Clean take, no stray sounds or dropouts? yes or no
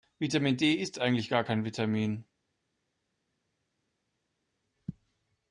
yes